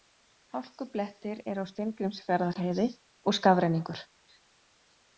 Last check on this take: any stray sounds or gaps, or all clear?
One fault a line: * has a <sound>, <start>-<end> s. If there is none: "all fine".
all fine